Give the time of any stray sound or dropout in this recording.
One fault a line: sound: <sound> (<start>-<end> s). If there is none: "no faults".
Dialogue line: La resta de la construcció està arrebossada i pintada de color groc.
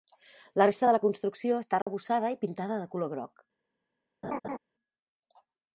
sound: dropout (1.8-1.9 s)
sound: laugh (4.2-4.6 s)